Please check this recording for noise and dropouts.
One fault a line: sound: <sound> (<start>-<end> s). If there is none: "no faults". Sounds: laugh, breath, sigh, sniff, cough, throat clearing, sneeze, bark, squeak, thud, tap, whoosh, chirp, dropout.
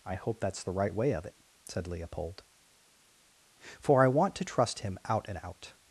no faults